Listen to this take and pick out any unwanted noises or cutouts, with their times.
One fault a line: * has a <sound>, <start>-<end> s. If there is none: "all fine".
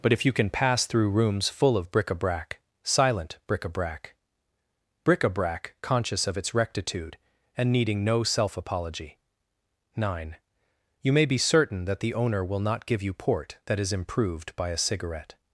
all fine